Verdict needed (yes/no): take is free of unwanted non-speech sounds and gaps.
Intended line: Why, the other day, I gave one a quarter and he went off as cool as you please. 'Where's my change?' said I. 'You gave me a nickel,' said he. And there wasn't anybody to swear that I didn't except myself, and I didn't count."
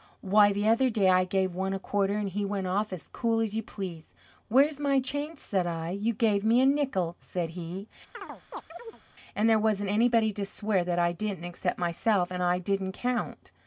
no